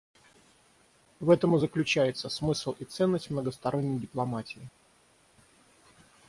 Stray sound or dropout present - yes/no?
no